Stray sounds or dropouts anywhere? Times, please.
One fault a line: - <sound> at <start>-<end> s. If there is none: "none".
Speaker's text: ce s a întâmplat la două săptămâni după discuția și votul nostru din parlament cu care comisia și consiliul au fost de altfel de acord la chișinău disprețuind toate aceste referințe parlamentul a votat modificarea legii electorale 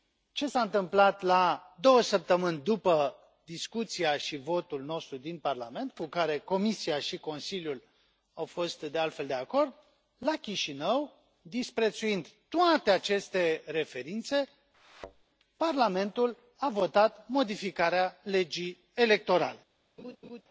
- thud at 14.7-15.2 s
- laugh at 20.0-20.4 s